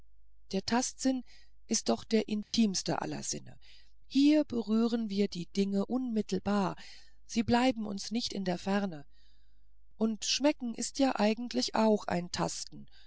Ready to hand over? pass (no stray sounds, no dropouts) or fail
fail